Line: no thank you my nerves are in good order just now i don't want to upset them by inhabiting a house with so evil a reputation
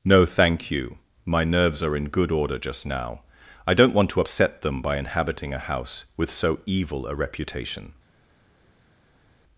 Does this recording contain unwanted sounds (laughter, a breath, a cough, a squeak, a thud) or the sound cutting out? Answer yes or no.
no